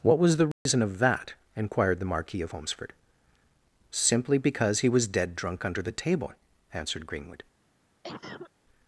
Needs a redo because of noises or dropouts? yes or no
yes